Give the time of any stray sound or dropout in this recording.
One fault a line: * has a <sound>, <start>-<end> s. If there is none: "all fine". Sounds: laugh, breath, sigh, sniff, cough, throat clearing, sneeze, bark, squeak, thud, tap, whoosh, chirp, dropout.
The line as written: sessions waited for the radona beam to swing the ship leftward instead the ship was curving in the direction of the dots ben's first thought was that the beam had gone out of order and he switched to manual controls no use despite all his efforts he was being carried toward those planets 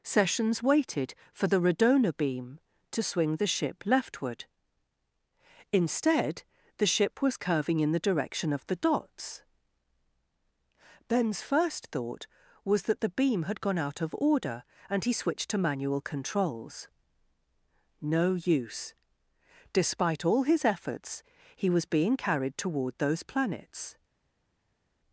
all fine